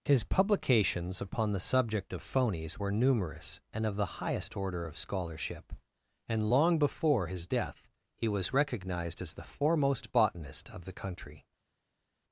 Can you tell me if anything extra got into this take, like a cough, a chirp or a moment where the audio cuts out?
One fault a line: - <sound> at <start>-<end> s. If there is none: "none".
none